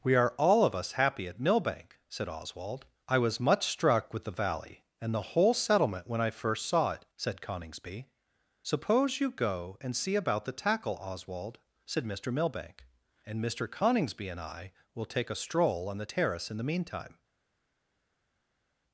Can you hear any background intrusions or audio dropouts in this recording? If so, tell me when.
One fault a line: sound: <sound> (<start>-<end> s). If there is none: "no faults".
no faults